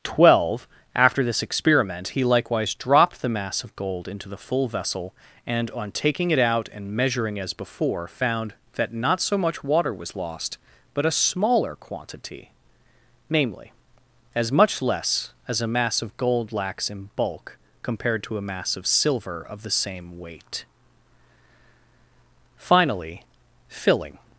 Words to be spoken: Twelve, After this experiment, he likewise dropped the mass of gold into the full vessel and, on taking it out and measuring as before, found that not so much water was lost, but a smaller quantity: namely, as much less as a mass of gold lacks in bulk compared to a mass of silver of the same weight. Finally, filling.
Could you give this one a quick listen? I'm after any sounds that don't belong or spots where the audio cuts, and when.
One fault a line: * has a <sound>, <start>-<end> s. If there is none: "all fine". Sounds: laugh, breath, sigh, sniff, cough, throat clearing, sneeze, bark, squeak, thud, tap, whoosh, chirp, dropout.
all fine